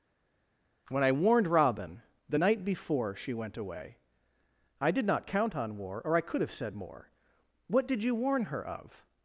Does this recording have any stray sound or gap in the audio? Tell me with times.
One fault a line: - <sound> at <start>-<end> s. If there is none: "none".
none